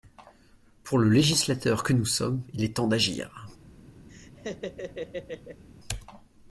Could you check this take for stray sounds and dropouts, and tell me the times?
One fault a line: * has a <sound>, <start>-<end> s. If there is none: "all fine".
* has a laugh, 4.1-5.6 s